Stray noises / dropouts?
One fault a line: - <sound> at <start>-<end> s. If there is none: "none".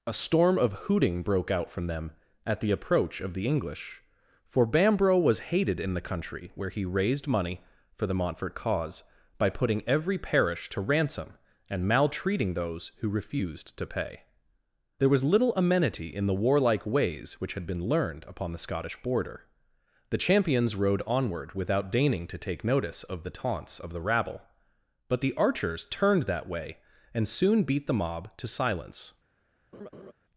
- laugh at 29.7-30.1 s